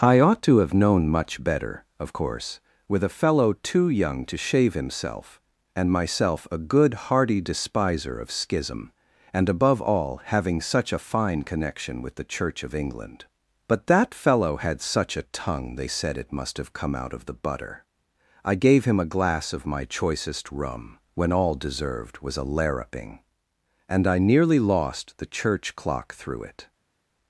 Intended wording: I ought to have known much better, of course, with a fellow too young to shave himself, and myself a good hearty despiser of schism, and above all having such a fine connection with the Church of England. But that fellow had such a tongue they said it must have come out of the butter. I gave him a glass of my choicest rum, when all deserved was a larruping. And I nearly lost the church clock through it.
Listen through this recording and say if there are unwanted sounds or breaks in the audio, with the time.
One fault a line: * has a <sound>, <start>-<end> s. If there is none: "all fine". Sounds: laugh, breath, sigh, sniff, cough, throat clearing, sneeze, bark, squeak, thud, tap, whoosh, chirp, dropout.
all fine